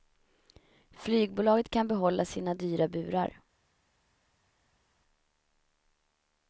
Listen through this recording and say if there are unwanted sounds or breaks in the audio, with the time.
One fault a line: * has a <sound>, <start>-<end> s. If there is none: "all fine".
all fine